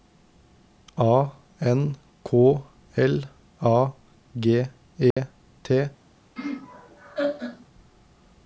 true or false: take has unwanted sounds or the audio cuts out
true